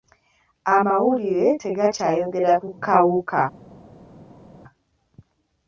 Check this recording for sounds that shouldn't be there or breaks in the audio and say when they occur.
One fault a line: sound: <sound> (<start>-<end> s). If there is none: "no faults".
no faults